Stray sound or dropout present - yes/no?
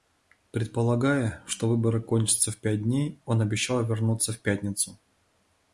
no